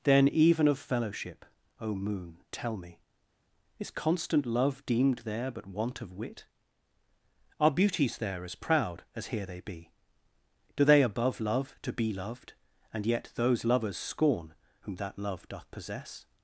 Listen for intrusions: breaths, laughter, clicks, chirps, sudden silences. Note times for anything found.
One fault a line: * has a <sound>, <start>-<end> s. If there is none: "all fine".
all fine